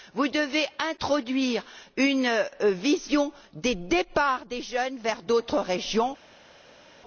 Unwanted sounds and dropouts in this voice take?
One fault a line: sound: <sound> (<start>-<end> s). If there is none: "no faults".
no faults